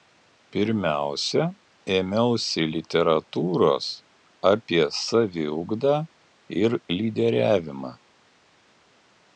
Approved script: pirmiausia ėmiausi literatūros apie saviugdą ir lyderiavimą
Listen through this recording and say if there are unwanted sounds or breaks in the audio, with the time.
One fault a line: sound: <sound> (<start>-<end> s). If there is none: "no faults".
no faults